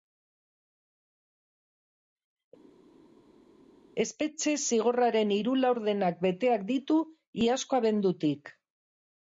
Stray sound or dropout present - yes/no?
no